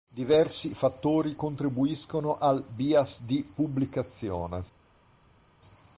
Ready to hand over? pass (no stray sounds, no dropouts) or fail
pass